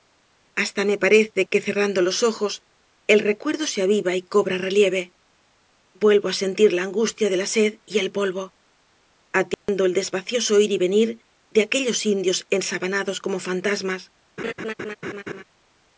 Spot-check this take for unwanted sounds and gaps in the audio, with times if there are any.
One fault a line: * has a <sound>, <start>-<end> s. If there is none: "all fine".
* has a dropout, 9.5-9.7 s
* has a laugh, 14.4-15.4 s